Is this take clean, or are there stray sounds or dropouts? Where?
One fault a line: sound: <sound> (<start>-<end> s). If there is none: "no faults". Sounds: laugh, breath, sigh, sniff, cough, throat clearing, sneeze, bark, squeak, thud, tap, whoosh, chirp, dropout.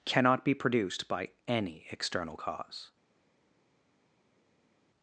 no faults